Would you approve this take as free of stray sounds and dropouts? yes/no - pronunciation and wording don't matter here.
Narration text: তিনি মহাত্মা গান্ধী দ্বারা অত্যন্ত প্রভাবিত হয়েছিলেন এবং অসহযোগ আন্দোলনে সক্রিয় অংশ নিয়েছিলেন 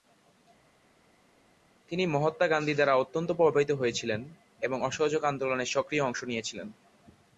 yes